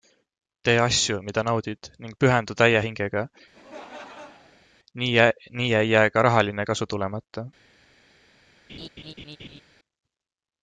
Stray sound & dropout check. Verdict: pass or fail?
fail